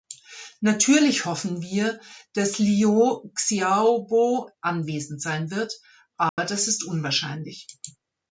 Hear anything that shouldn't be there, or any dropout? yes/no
yes